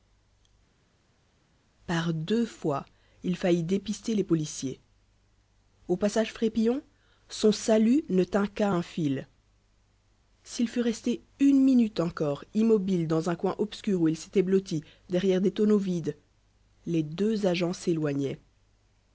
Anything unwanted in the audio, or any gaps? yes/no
no